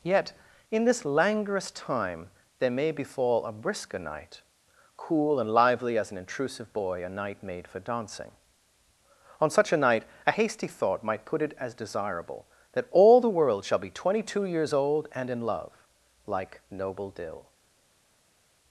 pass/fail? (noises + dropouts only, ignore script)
pass